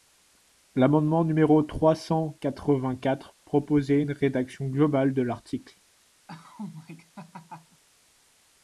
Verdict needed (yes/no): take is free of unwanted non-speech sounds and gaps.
no